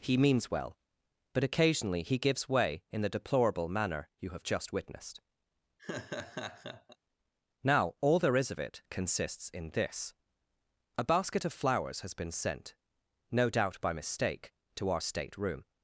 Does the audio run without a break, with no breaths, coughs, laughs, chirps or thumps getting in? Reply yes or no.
no